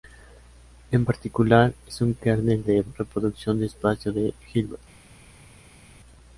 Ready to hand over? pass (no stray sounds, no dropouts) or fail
pass